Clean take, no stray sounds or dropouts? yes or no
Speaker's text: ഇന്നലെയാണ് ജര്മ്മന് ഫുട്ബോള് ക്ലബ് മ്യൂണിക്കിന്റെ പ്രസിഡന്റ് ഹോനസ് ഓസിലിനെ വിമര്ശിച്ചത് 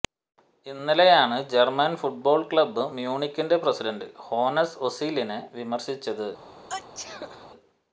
no